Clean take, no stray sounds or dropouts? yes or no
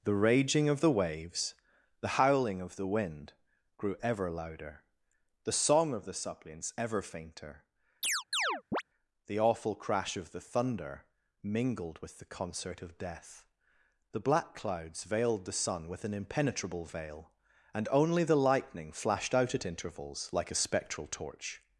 no